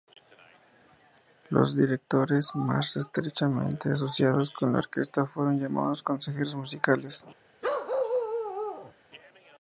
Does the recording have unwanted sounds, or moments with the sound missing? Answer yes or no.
yes